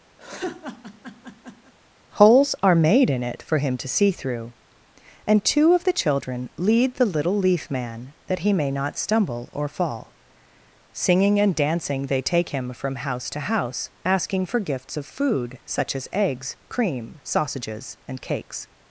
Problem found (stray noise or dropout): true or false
true